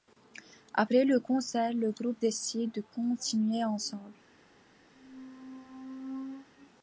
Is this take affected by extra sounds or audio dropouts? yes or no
yes